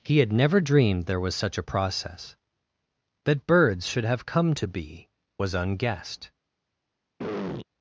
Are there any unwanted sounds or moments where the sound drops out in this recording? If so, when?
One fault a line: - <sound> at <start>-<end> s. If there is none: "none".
- throat clearing at 7.2-7.7 s